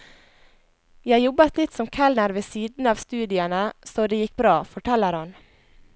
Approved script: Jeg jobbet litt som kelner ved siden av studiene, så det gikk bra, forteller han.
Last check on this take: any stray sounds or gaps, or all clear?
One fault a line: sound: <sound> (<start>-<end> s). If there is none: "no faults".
no faults